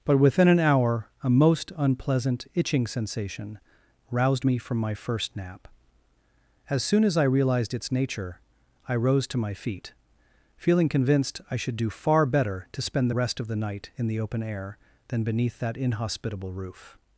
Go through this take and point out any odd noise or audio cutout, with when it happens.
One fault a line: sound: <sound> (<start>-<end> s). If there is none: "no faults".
no faults